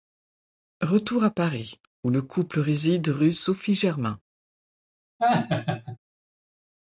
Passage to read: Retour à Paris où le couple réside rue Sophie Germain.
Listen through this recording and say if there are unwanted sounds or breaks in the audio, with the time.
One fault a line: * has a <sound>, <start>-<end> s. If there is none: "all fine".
* has a laugh, 5.2-6.0 s